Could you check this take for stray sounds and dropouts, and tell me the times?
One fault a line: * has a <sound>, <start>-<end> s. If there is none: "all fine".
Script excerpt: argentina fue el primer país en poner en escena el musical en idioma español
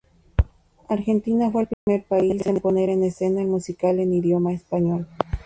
* has a dropout, 1.7-1.9 s